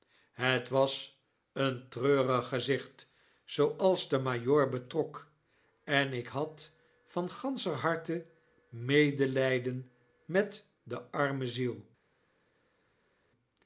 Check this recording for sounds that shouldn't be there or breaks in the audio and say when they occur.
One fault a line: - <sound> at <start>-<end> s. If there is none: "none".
none